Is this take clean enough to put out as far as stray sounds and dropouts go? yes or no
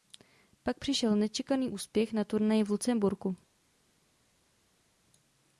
yes